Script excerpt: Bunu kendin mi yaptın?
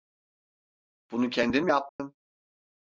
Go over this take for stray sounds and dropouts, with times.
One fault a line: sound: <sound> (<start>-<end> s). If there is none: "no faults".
sound: dropout (1.9-2.0 s)